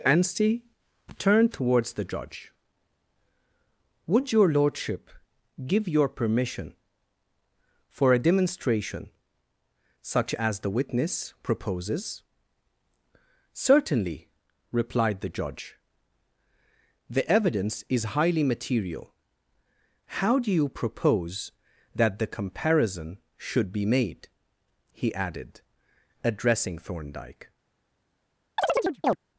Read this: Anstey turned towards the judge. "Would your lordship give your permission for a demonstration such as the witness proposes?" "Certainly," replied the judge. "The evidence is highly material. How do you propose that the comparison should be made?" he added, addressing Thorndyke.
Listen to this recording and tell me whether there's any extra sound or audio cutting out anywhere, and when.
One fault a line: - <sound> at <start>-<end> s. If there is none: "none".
- chirp at 28.6-29.2 s